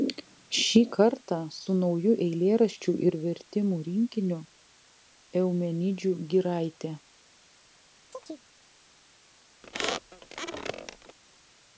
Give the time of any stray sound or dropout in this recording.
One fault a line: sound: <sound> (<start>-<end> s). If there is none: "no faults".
sound: chirp (8.1-8.5 s)
sound: squeak (9.6-11.2 s)